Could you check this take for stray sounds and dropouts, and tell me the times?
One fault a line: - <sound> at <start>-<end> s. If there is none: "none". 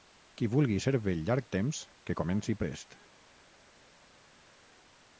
none